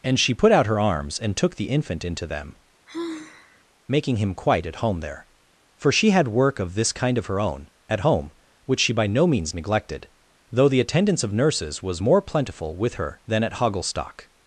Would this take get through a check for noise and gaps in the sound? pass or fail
fail